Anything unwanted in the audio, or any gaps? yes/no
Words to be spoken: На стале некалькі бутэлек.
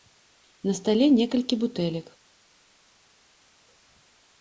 no